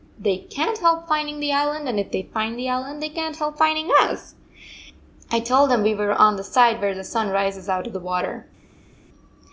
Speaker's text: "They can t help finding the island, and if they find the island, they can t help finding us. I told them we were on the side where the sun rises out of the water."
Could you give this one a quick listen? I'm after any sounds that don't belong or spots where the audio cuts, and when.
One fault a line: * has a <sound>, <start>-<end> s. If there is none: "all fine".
all fine